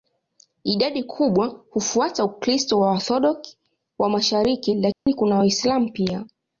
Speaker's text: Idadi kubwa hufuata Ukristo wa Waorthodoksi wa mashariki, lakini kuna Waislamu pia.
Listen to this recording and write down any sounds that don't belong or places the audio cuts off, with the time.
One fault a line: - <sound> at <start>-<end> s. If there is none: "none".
- dropout at 4.9-5.1 s